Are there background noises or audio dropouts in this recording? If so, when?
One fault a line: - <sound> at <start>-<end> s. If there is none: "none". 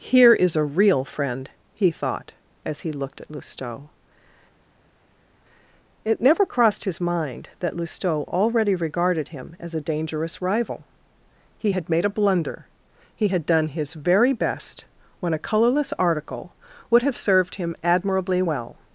none